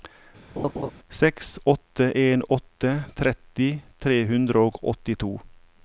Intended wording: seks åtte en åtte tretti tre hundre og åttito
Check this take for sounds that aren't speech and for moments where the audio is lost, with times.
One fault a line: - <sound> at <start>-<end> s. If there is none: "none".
- laugh at 0.6-0.9 s